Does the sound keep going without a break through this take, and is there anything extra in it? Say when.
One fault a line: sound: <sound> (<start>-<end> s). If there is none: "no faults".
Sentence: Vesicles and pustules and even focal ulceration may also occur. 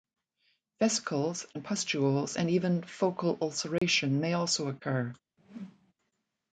sound: dropout (3.8-3.8 s)
sound: whoosh (5.4-5.9 s)